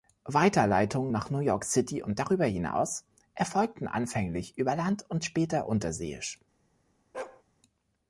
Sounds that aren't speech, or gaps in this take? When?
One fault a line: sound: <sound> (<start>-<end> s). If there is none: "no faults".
sound: bark (7.1-7.4 s)